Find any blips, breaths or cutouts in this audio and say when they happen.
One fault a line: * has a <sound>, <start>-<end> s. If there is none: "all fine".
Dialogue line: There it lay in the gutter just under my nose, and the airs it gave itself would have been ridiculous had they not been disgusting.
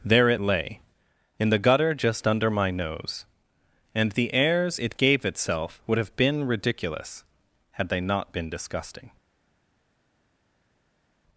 all fine